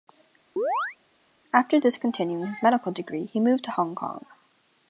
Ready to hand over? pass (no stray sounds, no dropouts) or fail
fail